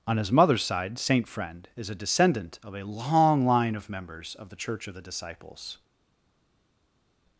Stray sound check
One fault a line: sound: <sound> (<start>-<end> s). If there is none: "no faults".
no faults